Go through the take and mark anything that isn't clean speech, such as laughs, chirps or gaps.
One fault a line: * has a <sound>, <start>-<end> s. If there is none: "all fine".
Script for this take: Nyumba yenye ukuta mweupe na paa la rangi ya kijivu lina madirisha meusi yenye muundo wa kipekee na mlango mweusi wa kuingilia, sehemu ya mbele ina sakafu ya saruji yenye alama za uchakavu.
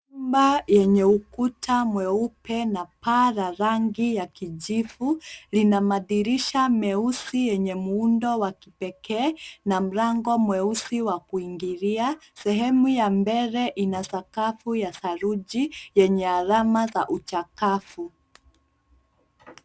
all fine